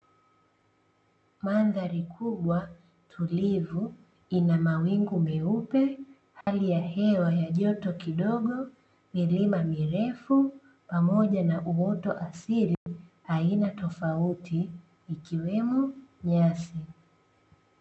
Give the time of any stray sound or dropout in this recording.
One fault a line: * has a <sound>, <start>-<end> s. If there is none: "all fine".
* has a dropout, 6.4-6.5 s
* has a dropout, 12.7-12.9 s